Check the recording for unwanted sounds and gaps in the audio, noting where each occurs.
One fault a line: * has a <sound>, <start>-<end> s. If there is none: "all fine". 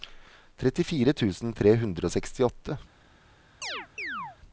* has a chirp, 3.6-4.4 s